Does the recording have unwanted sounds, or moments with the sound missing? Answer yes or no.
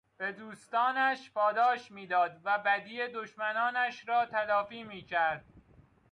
no